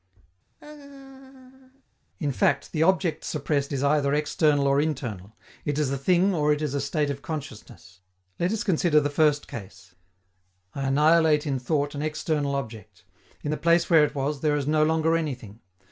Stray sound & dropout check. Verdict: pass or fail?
fail